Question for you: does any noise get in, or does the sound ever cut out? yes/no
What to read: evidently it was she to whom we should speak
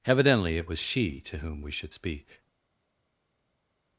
no